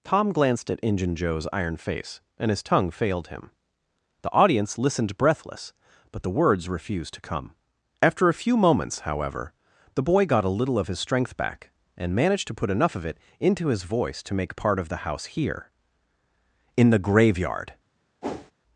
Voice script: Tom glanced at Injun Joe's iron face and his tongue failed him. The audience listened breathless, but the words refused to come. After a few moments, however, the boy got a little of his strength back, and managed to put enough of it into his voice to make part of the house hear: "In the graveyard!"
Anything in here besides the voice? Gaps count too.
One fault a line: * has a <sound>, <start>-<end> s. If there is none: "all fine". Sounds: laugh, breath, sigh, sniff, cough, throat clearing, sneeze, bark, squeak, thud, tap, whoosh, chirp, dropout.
* has a whoosh, 18.2-18.5 s